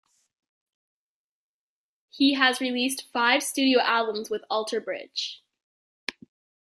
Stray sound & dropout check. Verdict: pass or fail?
pass